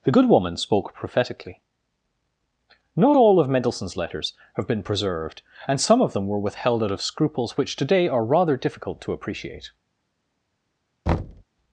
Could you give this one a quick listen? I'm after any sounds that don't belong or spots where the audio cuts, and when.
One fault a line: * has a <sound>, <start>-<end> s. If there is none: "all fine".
* has a thud, 11.1-11.4 s